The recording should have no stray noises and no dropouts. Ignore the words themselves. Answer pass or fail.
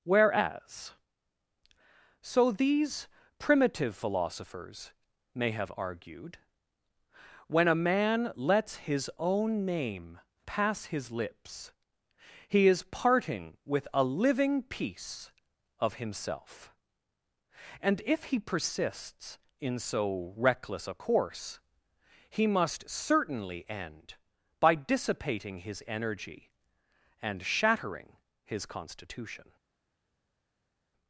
pass